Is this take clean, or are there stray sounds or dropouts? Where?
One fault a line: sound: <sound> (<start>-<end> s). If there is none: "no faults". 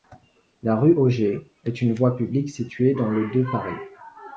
no faults